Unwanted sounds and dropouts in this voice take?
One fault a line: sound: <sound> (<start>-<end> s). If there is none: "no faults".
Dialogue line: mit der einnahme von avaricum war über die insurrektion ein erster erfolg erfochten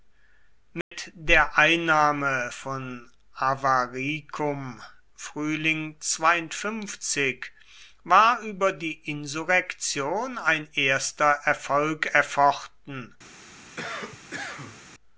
sound: dropout (0.8-0.9 s)
sound: cough (13.8-14.8 s)